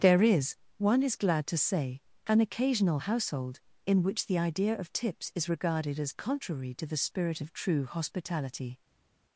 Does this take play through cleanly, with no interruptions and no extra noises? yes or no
yes